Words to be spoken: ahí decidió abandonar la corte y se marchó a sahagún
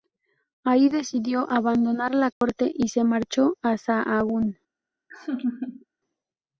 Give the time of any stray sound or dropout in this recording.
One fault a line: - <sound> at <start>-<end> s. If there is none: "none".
- dropout at 2.3-2.4 s
- laugh at 5.1-5.9 s